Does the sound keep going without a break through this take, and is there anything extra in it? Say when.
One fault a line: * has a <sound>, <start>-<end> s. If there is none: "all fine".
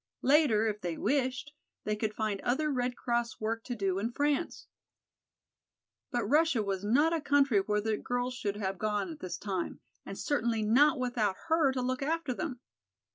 all fine